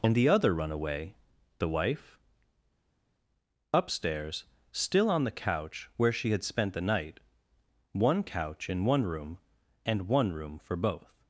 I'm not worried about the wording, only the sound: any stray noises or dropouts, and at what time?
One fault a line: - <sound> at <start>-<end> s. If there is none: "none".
none